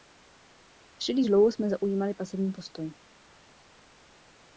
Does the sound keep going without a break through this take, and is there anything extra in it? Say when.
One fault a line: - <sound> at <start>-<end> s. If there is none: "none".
none